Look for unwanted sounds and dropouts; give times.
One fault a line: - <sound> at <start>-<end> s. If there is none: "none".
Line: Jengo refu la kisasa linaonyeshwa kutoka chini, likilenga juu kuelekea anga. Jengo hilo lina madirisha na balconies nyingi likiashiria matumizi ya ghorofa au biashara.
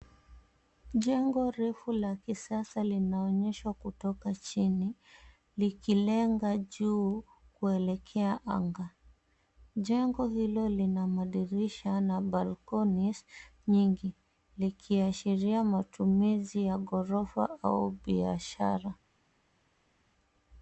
none